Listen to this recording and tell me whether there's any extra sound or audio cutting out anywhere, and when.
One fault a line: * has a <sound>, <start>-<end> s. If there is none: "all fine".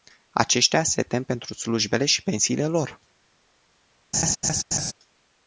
* has a laugh, 4.1-4.9 s